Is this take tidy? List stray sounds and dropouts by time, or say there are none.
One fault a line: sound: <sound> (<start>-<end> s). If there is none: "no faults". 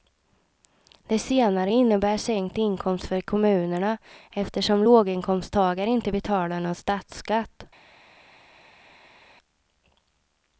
no faults